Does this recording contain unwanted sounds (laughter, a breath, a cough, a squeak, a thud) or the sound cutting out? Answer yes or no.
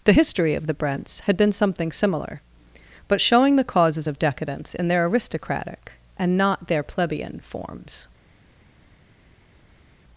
no